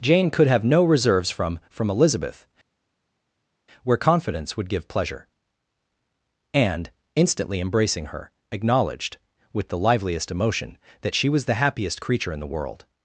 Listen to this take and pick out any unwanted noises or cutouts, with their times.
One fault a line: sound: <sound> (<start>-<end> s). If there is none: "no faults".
no faults